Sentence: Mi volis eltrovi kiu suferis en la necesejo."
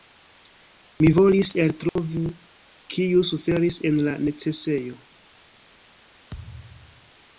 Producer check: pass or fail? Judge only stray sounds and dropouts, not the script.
fail